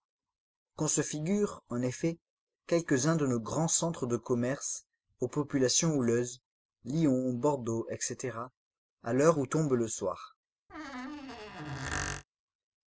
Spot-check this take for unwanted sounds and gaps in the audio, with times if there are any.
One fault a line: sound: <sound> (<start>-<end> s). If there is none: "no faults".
sound: squeak (10.7-12.2 s)